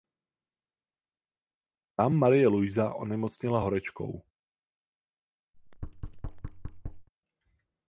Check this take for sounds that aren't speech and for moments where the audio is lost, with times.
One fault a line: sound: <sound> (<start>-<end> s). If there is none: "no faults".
sound: thud (5.5-7.1 s)